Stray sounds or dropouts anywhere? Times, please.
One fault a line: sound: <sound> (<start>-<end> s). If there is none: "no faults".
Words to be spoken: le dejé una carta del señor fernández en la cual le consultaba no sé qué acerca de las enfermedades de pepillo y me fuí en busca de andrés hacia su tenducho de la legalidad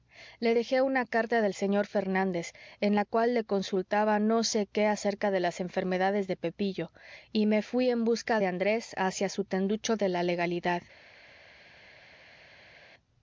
no faults